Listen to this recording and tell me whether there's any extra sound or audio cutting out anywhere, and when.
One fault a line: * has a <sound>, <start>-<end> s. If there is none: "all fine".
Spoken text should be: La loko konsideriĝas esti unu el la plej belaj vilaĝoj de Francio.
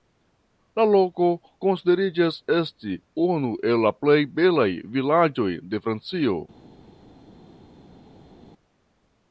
all fine